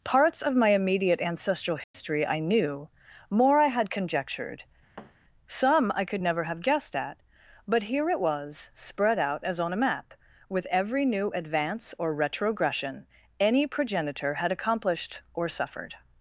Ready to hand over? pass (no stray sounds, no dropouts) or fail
fail